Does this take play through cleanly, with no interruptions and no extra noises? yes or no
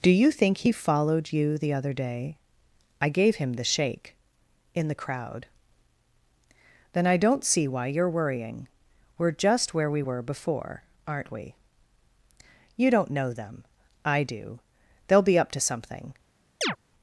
no